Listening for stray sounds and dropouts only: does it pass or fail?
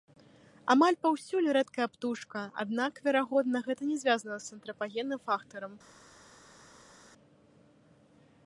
pass